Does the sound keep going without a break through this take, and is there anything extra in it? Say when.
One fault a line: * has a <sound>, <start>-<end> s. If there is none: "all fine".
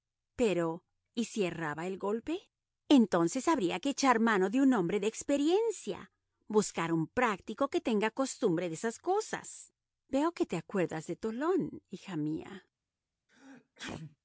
* has a sneeze, 13.3-14.2 s